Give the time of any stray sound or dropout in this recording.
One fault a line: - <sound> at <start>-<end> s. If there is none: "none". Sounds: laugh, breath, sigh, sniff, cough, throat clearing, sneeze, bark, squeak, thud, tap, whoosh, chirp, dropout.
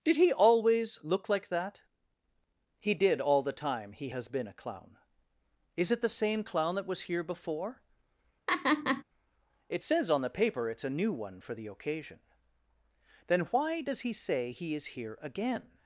- laugh at 8.5-9.0 s